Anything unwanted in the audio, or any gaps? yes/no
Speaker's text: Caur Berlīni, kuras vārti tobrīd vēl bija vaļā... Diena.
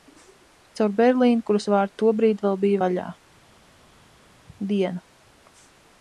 no